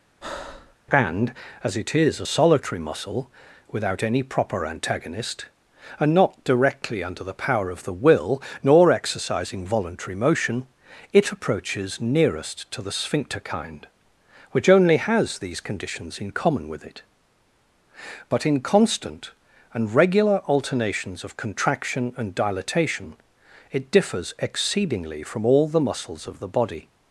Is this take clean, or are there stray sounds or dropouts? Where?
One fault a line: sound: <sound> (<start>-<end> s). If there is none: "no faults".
sound: breath (0.2-0.8 s)